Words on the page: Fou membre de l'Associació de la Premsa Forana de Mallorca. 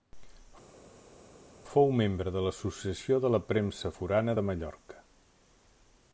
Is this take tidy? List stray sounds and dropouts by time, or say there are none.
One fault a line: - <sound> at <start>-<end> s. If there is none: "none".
none